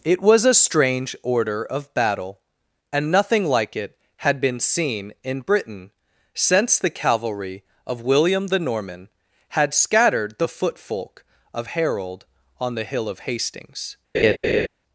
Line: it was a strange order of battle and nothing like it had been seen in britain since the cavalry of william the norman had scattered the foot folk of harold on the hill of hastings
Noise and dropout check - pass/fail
fail